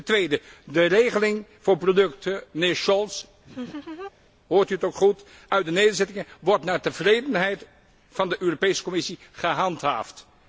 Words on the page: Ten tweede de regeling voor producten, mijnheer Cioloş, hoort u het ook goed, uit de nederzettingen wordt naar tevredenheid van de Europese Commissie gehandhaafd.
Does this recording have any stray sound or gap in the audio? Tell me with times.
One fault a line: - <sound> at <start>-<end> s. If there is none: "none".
- laugh at 3.4-4.1 s